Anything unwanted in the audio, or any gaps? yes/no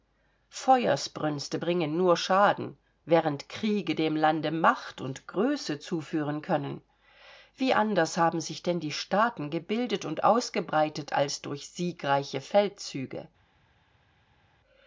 no